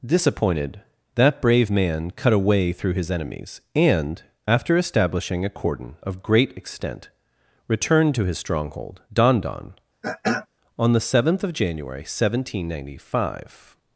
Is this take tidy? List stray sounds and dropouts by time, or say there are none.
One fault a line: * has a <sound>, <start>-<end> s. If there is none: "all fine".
* has a throat clearing, 10.0-10.5 s